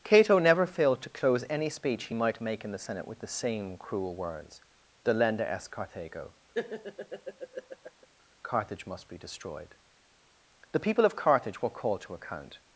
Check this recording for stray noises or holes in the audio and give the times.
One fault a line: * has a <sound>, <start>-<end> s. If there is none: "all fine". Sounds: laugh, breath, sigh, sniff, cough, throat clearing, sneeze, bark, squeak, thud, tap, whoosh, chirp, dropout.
* has a laugh, 6.5-8.1 s